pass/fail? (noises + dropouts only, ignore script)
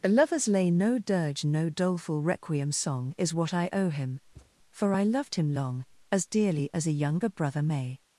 fail